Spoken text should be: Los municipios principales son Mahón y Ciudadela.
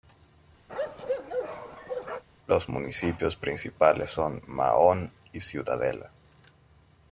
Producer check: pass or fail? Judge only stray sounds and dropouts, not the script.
fail